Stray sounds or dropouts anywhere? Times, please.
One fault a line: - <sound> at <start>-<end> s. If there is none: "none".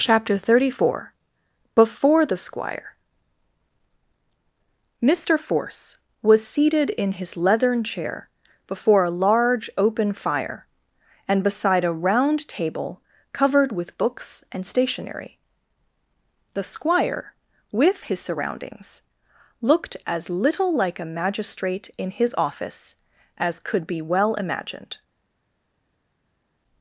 none